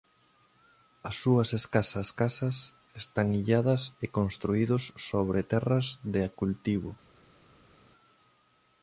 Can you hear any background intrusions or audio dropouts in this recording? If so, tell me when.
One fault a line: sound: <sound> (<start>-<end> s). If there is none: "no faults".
no faults